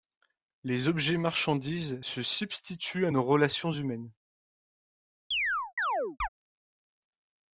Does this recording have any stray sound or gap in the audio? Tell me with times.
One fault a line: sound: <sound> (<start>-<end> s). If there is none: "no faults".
sound: chirp (5.3-6.3 s)